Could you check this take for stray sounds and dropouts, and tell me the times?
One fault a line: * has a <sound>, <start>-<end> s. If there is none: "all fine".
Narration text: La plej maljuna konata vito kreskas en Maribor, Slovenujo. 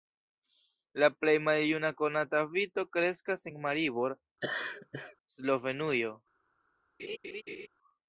* has a laugh, 4.4-5.2 s
* has a laugh, 7.0-7.7 s